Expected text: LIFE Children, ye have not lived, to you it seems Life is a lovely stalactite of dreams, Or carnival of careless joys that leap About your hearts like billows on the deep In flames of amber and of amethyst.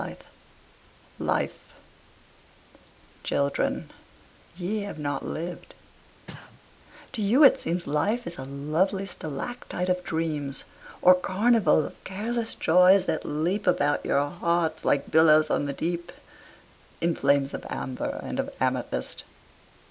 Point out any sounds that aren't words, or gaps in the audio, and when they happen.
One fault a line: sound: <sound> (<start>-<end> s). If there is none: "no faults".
sound: sneeze (6.3-6.6 s)